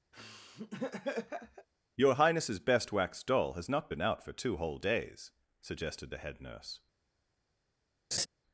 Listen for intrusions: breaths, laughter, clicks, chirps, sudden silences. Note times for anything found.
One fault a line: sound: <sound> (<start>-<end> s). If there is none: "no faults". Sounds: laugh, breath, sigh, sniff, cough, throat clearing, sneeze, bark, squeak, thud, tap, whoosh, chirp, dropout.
sound: laugh (0.1-1.7 s)
sound: laugh (8.1-8.3 s)